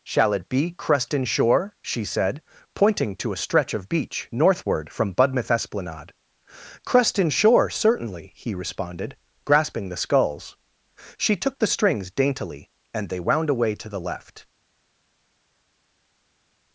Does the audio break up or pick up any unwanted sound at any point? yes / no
no